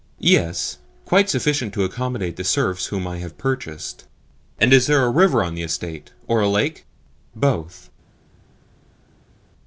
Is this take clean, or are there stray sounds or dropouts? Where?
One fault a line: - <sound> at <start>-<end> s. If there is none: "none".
none